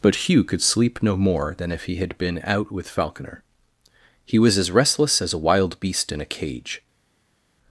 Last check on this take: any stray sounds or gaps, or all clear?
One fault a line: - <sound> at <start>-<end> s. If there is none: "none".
none